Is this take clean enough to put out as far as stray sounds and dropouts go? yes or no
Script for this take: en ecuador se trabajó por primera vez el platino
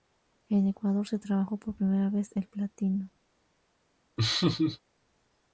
no